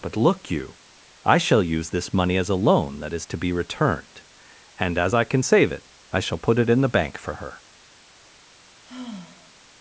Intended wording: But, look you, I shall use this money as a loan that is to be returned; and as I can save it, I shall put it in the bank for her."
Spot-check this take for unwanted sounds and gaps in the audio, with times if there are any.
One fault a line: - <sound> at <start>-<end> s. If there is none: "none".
- sigh at 8.8-9.6 s